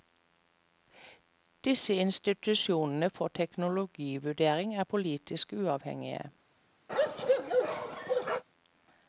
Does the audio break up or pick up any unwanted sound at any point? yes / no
yes